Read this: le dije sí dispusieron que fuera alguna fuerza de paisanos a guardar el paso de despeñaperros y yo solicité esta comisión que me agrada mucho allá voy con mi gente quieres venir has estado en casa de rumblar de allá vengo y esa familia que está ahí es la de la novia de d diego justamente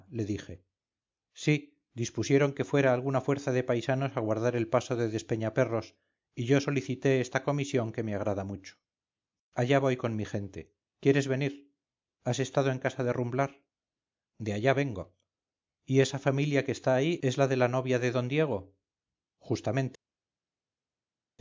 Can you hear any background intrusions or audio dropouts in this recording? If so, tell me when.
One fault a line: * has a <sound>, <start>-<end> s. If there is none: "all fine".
all fine